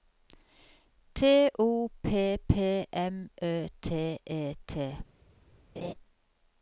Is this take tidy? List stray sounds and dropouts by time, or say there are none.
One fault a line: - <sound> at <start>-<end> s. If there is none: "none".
- laugh at 5.8-5.9 s